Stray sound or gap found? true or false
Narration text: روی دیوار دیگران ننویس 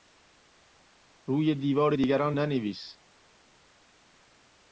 false